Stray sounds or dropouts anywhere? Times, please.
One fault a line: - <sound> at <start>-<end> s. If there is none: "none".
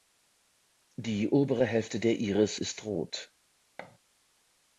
- thud at 3.8-4.0 s